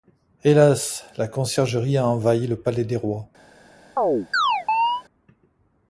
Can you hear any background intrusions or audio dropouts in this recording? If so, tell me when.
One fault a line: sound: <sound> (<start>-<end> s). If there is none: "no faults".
sound: chirp (4.0-5.0 s)